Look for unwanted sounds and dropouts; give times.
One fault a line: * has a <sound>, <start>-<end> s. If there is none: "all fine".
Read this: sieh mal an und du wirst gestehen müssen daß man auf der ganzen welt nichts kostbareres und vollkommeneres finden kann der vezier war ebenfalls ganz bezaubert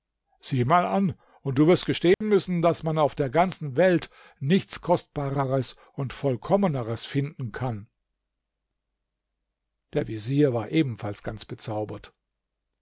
* has a dropout, 2.1-2.2 s